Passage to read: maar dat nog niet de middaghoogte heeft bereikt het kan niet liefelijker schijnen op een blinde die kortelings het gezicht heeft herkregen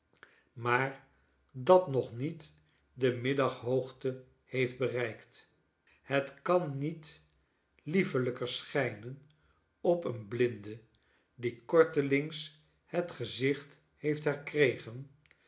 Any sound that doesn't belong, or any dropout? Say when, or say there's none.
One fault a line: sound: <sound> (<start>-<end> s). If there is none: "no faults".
no faults